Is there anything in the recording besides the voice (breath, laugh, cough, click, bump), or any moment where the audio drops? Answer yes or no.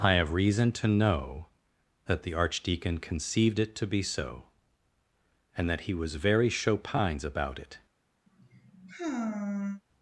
yes